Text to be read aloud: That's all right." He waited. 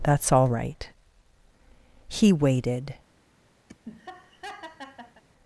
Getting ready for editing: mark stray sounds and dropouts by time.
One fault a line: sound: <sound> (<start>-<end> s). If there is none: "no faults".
sound: laugh (3.7-5.2 s)